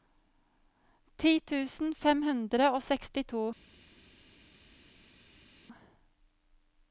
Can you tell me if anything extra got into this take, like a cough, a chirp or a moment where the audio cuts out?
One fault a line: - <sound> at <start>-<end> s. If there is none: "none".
none